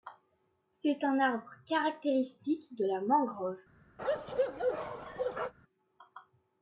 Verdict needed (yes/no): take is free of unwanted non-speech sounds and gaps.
no